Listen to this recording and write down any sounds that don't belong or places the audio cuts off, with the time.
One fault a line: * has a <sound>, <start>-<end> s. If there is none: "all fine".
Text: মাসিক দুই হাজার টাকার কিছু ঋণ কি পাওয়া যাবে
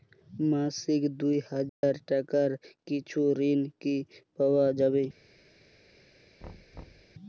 * has a dropout, 1.7-1.8 s
* has a thud, 6.4-7.2 s